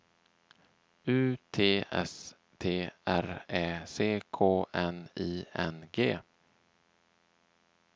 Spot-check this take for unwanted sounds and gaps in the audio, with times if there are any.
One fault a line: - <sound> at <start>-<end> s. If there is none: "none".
none